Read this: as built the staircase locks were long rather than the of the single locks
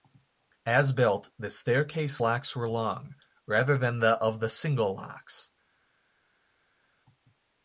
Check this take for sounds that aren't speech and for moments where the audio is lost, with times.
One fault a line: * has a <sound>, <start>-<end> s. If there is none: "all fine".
all fine